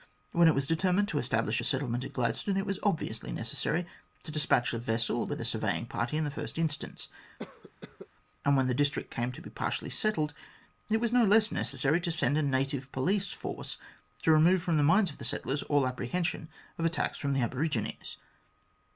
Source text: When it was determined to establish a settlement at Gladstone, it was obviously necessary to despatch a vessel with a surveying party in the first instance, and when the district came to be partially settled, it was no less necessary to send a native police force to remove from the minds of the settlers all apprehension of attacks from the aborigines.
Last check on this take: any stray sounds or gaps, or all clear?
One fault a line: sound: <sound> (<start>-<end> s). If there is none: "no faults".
sound: cough (7.4-8.1 s)